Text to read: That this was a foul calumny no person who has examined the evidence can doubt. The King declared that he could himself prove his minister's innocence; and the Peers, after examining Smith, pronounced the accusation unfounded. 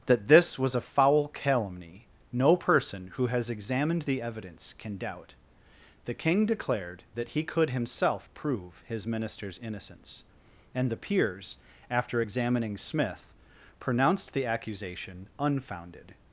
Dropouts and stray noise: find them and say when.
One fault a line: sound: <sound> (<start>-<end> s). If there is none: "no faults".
no faults